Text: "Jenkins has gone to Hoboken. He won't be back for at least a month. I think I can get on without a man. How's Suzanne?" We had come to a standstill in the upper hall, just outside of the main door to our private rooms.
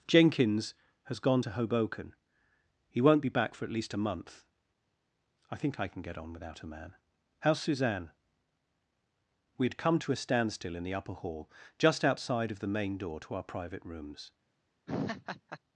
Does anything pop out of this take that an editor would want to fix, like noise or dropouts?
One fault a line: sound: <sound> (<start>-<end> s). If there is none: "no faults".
sound: laugh (14.9-15.6 s)